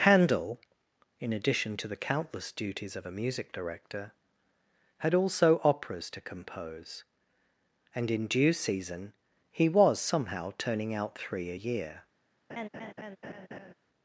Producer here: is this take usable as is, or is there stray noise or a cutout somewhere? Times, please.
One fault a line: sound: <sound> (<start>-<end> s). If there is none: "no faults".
sound: laugh (12.5-13.7 s)